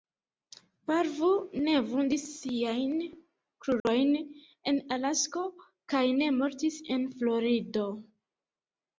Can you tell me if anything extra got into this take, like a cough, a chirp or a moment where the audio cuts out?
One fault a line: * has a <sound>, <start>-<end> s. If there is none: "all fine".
* has a dropout, 3.8-3.9 s